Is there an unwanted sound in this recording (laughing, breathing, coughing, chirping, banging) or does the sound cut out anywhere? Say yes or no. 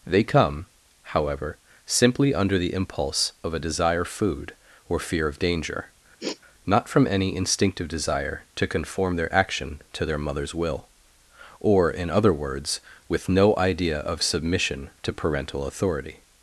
yes